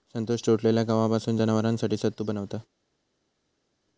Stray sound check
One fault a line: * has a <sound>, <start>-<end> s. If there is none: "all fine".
all fine